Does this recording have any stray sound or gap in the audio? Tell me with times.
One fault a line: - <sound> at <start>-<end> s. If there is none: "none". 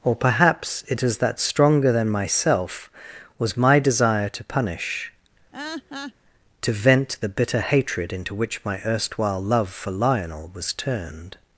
- laugh at 5.5-6.1 s